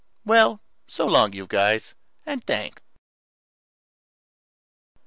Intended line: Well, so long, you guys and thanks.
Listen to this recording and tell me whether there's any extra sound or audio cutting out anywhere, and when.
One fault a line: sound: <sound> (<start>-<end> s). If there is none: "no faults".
no faults